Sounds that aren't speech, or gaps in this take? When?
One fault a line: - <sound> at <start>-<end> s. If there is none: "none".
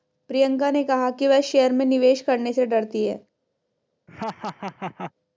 - laugh at 4.1-5.1 s